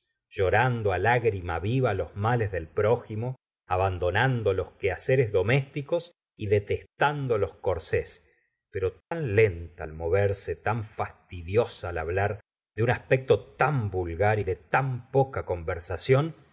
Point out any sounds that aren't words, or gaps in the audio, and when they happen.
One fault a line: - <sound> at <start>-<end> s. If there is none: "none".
- dropout at 9.0-9.1 s